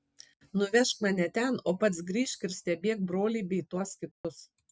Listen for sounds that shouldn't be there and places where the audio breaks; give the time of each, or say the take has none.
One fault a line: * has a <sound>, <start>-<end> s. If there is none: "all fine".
* has a dropout, 4.1-4.2 s